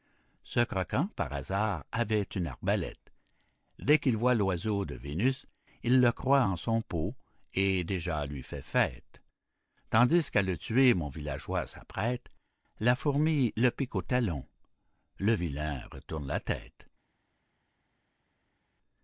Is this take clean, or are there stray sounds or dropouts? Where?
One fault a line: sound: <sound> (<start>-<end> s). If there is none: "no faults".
no faults